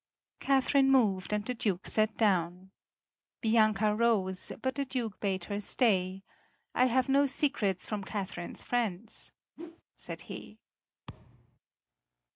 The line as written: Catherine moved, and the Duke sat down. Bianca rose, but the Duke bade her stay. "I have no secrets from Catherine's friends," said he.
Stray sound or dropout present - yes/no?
yes